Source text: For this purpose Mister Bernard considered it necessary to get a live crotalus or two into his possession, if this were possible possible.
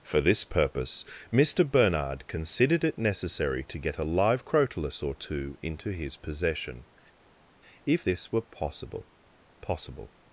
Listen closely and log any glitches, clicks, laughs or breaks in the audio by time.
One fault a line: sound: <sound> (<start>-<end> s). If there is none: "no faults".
no faults